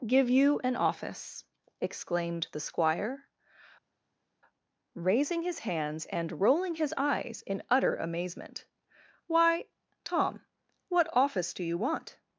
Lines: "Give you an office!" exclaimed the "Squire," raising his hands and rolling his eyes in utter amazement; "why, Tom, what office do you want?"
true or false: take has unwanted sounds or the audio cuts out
false